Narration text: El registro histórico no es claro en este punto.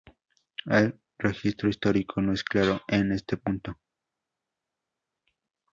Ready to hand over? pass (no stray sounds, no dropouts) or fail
pass